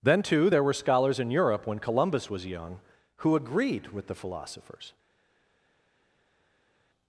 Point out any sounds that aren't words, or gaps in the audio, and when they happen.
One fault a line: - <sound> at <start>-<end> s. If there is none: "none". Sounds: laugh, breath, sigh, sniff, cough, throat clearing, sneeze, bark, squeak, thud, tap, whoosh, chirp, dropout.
none